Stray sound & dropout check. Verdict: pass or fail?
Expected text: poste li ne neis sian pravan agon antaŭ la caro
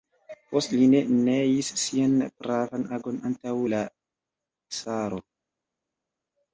pass